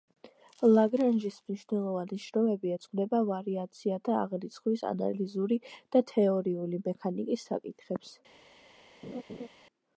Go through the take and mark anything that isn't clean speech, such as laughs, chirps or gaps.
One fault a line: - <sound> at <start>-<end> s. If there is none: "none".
- laugh at 9.0-9.5 s